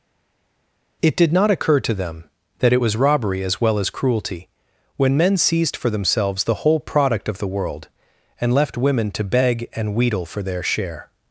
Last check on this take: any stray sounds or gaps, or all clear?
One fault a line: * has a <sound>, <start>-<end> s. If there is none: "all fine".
all fine